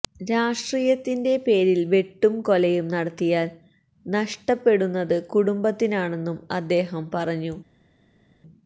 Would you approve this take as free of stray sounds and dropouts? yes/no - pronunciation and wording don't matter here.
yes